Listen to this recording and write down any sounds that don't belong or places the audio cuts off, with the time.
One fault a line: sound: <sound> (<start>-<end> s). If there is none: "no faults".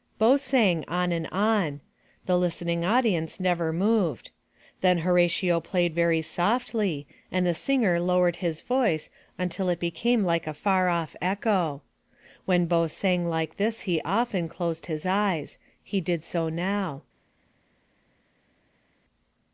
no faults